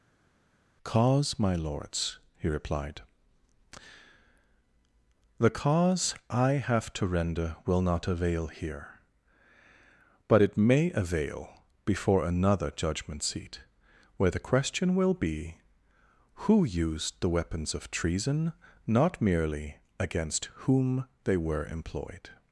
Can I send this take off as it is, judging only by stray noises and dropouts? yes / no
yes